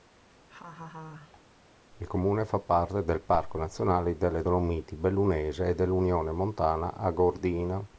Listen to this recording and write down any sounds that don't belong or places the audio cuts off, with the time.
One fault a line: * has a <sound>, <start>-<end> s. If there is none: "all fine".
* has a laugh, 0.5-1.4 s